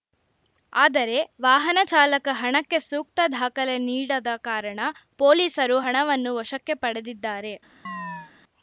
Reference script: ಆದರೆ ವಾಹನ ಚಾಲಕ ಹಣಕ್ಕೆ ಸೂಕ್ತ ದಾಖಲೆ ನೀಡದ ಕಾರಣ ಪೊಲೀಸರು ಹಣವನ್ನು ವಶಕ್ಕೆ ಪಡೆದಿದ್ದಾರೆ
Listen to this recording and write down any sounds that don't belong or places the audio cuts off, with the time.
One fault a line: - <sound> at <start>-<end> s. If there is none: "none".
- chirp at 7.8-8.3 s